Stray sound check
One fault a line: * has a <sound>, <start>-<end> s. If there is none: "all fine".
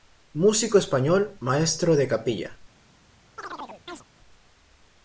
* has a chirp, 3.4-4.0 s